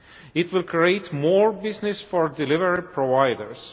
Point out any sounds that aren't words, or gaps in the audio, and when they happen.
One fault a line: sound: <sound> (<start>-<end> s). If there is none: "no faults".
no faults